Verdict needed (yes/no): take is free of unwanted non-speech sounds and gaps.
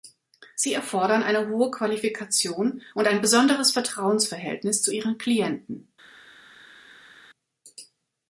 yes